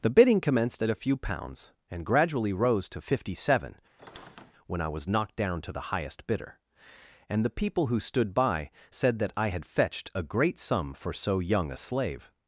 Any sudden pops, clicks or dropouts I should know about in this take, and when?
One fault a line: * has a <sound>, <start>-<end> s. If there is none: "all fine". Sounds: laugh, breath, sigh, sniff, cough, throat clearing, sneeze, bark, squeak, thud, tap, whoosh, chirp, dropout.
* has a squeak, 4.0-4.5 s